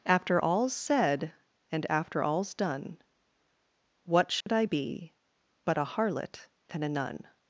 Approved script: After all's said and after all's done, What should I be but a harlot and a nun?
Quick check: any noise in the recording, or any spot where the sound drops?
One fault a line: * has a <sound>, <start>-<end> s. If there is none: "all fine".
* has a dropout, 4.4-4.5 s